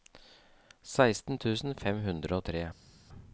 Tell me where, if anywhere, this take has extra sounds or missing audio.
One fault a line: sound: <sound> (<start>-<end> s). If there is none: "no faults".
no faults